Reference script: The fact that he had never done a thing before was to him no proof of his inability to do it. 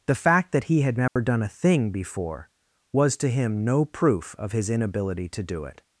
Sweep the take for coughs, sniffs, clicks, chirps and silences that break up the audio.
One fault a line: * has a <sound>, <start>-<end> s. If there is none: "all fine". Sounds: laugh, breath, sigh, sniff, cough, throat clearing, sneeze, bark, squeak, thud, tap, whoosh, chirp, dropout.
* has a dropout, 1.1-1.2 s